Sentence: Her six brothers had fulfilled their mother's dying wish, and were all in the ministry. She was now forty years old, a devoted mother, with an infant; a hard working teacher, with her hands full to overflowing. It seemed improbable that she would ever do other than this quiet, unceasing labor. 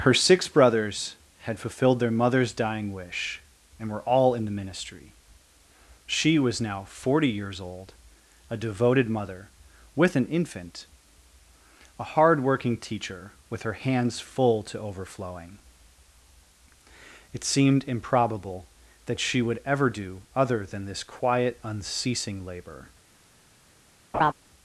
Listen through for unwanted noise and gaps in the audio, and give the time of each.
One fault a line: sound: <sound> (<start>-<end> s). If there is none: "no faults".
sound: laugh (24.1-24.3 s)